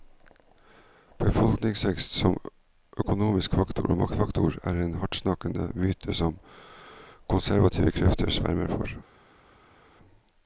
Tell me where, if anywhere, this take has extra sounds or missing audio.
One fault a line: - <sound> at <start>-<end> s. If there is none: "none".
none